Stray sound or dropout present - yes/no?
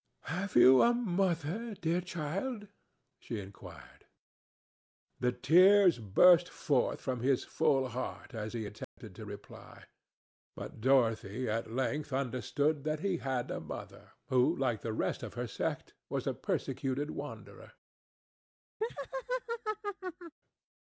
yes